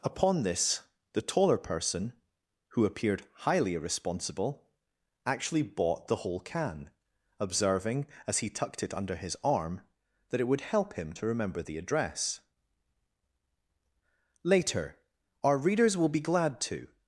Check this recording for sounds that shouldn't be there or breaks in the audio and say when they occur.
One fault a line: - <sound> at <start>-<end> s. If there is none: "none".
none